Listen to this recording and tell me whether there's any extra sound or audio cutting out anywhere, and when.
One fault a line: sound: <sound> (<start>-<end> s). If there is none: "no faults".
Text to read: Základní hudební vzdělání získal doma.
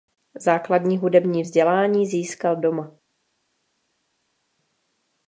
no faults